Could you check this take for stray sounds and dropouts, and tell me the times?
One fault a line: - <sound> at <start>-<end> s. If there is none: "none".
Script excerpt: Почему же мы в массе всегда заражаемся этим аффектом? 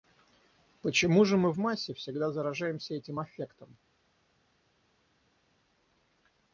none